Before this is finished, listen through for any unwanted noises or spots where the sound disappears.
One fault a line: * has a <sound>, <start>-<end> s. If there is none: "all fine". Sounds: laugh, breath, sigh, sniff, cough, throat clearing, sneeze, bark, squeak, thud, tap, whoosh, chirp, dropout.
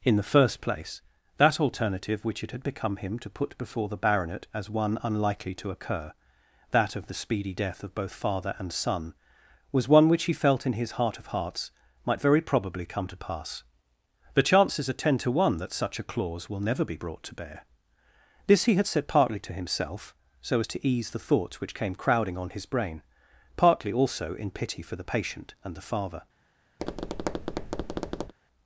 * has a tap, 26.8-28.3 s